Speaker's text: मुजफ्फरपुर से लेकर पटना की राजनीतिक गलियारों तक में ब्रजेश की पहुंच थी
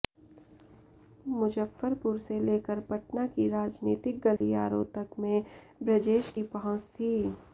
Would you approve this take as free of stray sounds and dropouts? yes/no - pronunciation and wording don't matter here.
no